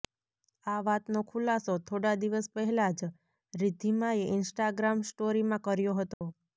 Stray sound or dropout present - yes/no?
yes